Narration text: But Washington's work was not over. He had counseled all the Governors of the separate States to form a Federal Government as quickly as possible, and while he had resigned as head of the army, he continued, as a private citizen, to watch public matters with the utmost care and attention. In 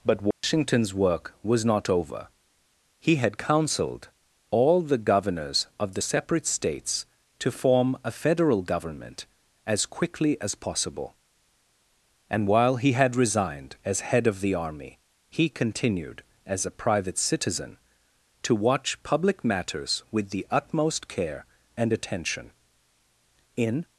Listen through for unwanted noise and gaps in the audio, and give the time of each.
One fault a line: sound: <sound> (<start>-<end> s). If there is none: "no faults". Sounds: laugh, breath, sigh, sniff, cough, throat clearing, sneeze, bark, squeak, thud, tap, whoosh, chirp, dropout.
sound: dropout (0.3-0.4 s)